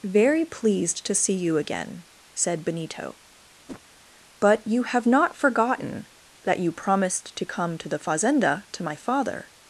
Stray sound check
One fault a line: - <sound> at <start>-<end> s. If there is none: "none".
- whoosh at 3.7-3.8 s